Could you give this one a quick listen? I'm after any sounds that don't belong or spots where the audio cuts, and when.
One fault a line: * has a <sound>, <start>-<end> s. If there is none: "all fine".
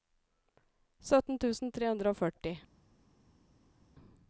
all fine